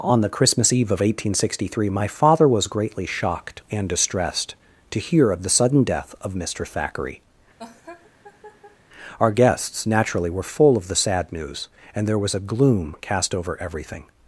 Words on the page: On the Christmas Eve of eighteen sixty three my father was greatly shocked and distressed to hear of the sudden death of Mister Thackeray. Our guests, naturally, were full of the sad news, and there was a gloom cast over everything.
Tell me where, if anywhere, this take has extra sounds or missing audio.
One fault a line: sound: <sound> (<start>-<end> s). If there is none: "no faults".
sound: laugh (7.6-8.8 s)